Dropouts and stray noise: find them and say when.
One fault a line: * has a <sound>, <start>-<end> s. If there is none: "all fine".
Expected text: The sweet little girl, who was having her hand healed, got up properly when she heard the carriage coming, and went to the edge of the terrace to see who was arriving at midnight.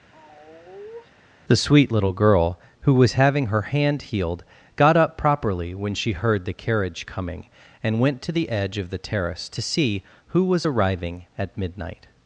* has a sigh, 0.1-1.1 s